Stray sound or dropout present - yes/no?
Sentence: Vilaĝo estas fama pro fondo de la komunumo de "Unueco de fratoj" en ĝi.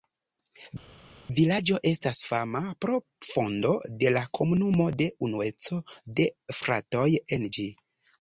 no